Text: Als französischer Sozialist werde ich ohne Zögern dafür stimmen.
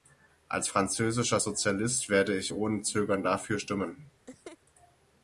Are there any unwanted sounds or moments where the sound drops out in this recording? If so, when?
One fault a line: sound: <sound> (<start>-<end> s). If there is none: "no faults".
sound: laugh (4.3-4.6 s)